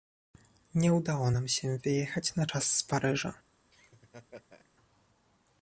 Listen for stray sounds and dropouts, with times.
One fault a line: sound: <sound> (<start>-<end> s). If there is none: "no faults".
sound: laugh (3.7-4.7 s)